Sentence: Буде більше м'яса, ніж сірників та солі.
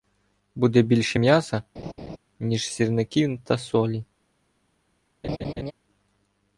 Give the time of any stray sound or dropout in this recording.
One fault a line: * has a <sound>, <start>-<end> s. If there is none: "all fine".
* has a laugh, 1.8-2.2 s
* has a laugh, 5.2-5.7 s